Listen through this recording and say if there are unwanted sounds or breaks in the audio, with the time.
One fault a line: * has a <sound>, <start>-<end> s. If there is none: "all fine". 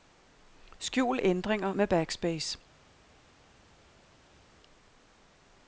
all fine